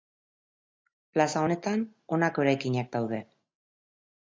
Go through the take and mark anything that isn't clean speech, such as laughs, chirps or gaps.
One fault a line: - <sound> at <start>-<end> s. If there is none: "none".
none